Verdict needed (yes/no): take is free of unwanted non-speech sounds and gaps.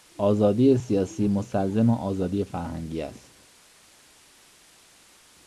yes